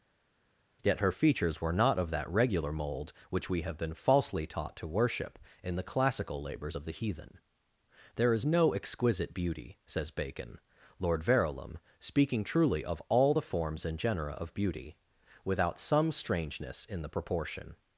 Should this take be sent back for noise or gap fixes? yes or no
no